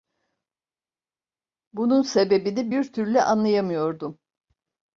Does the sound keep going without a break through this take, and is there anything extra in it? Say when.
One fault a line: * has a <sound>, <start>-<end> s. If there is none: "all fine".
all fine